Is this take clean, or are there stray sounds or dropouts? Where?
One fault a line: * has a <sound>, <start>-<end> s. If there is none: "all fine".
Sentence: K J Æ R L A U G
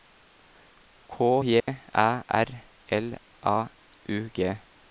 * has a dropout, 1.6-1.7 s